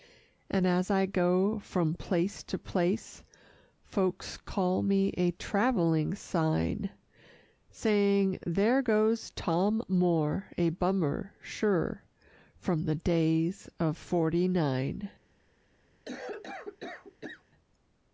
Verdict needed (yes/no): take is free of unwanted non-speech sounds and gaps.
no